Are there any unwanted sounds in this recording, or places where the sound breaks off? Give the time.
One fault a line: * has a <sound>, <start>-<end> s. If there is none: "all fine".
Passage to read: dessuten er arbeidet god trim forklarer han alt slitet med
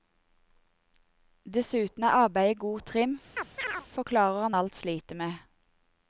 * has a chirp, 3.4-3.9 s